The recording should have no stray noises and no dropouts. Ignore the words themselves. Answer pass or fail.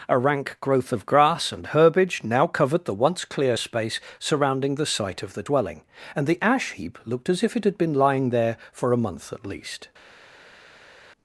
pass